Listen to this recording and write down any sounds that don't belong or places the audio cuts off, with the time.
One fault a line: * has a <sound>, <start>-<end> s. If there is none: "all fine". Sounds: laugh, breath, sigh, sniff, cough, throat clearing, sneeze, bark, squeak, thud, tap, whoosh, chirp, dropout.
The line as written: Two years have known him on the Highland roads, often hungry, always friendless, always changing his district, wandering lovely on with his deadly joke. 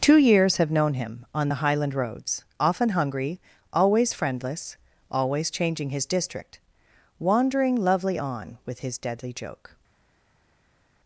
all fine